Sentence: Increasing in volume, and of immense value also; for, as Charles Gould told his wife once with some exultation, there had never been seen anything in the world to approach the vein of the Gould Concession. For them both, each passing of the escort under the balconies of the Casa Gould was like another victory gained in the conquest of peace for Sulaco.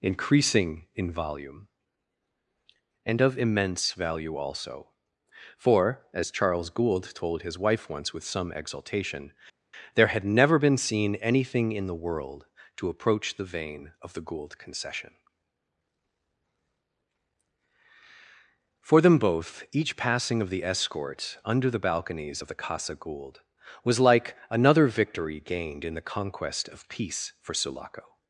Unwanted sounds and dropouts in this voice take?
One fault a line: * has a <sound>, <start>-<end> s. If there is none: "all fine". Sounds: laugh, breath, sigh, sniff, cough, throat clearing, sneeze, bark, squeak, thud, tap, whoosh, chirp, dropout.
all fine